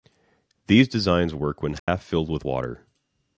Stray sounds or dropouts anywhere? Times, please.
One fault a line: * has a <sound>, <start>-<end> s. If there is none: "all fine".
* has a dropout, 1.8-1.9 s